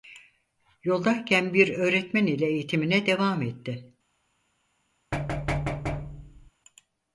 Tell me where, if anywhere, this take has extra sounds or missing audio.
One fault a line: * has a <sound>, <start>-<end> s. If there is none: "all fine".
* has a thud, 5.1-6.5 s